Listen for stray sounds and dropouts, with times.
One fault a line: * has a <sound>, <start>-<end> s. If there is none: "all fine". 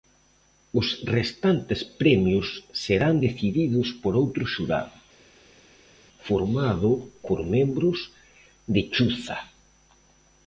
all fine